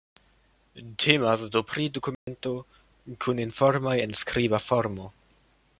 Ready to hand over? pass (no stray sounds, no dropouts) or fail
fail